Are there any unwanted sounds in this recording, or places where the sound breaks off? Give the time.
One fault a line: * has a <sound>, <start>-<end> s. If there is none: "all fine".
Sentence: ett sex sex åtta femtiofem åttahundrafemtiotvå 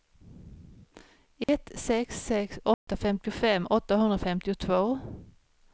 * has a dropout, 1.4-1.5 s
* has a dropout, 2.7-2.9 s